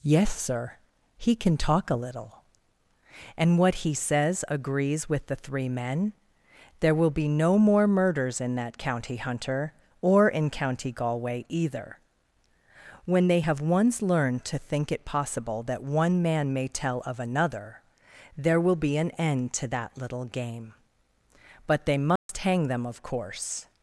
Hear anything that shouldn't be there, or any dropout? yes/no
yes